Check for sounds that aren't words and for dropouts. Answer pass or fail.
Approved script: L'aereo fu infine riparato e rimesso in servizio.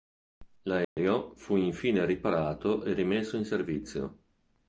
fail